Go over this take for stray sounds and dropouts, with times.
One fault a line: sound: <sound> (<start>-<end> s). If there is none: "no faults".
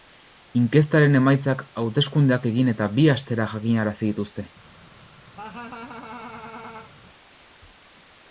sound: laugh (5.4-6.9 s)